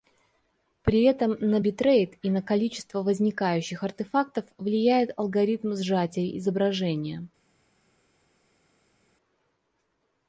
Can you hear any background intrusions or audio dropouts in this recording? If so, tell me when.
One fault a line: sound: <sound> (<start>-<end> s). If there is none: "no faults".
no faults